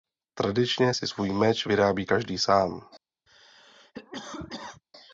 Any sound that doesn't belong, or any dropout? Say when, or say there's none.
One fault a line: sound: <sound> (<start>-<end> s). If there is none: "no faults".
sound: cough (3.3-4.8 s)